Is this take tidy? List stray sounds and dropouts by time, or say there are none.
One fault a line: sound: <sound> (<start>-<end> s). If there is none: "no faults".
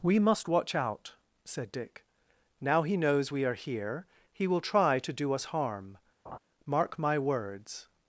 sound: laugh (6.3-6.4 s)